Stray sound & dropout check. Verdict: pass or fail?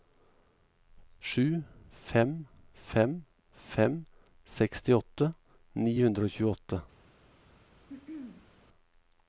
fail